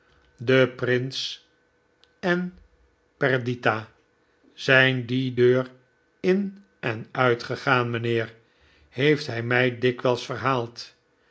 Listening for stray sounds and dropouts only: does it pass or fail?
pass